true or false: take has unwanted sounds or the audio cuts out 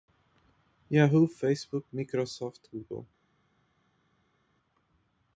false